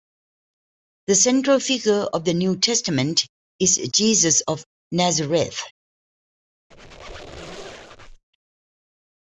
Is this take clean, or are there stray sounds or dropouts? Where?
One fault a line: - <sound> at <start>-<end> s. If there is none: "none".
- squeak at 6.7-8.2 s